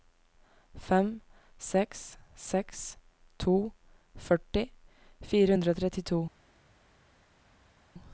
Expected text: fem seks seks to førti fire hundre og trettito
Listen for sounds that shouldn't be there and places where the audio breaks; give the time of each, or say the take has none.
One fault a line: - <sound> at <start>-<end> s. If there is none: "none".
none